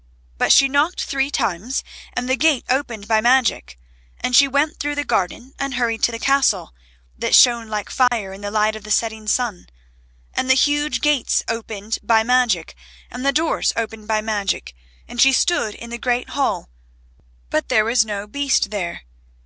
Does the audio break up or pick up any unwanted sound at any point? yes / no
yes